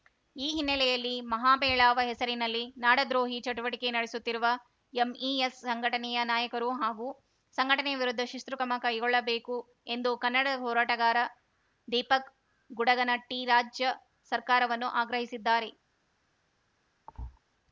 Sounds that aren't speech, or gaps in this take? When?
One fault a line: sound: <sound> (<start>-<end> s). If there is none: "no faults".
sound: thud (17.1-17.4 s)